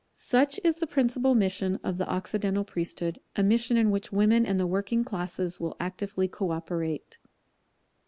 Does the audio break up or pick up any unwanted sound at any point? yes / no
no